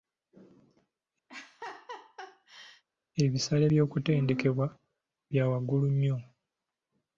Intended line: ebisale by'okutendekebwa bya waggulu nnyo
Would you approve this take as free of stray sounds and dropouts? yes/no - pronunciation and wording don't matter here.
no